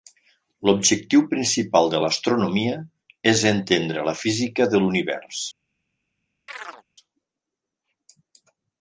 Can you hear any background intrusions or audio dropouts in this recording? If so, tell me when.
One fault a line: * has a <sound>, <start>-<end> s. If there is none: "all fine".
* has a chirp, 6.5-6.8 s